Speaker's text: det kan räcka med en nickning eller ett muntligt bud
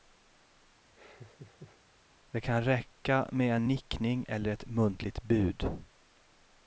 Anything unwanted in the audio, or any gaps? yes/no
yes